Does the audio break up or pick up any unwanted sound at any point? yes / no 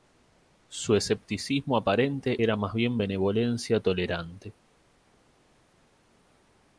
no